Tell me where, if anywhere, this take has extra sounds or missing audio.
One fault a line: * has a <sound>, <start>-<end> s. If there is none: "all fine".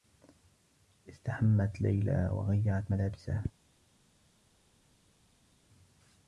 all fine